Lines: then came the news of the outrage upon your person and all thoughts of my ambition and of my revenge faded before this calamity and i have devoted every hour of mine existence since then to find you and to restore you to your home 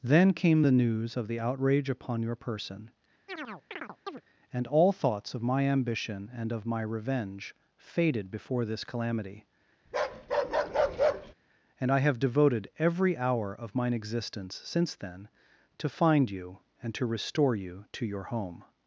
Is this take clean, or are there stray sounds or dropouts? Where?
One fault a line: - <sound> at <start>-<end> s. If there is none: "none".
- chirp at 3.3-4.2 s
- bark at 9.9-11.3 s